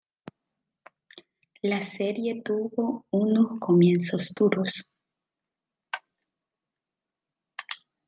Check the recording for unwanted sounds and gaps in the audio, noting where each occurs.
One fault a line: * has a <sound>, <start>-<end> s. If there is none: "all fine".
all fine